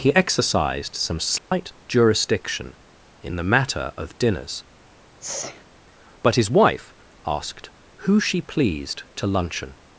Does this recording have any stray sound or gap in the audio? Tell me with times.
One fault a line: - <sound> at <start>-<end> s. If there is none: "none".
- dropout at 1.4-1.5 s
- sneeze at 5.2-5.6 s